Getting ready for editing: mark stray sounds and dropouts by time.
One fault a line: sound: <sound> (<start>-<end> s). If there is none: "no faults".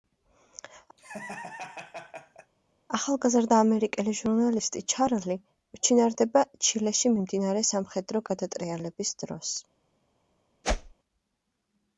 sound: laugh (1.0-2.5 s)
sound: whoosh (10.6-10.9 s)